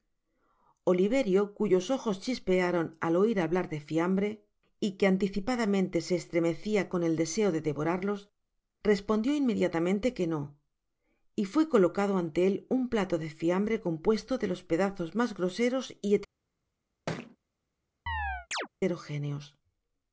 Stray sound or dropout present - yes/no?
yes